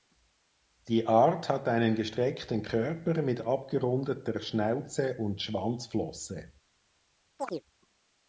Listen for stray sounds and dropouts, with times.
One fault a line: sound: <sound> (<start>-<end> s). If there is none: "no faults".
sound: chirp (7.4-7.6 s)